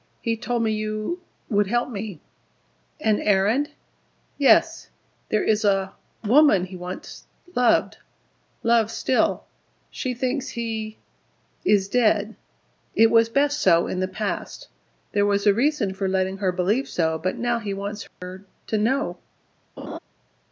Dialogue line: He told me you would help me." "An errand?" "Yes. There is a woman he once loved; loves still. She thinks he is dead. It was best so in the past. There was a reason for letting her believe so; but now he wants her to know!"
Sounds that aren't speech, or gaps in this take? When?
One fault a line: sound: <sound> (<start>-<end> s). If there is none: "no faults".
sound: dropout (18.1-18.2 s)
sound: laugh (19.8-20.0 s)